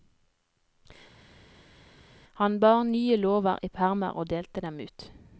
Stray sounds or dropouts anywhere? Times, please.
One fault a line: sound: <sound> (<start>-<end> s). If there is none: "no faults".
no faults